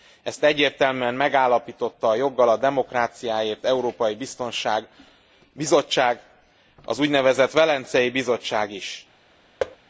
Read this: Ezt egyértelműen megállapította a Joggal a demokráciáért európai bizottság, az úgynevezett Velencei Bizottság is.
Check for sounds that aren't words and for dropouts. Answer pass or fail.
fail